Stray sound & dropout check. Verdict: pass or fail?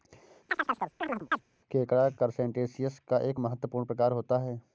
fail